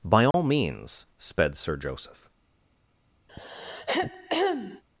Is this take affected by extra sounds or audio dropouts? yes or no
yes